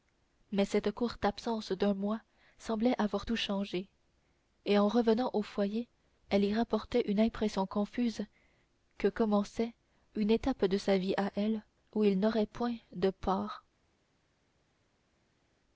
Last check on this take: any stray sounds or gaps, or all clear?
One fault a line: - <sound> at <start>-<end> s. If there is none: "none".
none